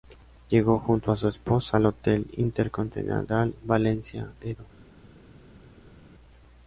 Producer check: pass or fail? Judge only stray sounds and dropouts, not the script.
pass